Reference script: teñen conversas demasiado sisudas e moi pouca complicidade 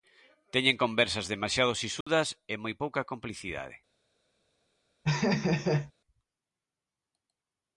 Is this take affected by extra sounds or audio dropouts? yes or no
yes